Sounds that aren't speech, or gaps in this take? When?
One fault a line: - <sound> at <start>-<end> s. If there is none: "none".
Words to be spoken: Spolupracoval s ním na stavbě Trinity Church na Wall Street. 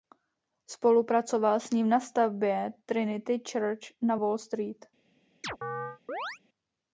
- chirp at 5.4-6.4 s